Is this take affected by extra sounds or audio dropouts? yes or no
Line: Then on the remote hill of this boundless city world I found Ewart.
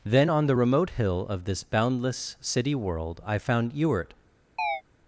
yes